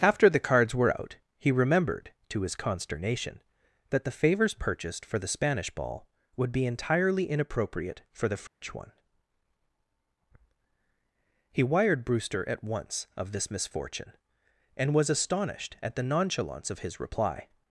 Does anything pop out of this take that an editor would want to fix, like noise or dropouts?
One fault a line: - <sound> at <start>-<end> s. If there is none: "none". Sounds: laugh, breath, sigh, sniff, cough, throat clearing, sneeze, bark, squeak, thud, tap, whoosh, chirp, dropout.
- dropout at 8.5-8.6 s